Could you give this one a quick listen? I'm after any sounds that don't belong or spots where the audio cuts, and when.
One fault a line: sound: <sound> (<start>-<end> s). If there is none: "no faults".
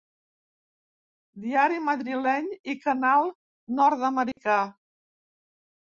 sound: dropout (4.3-4.4 s)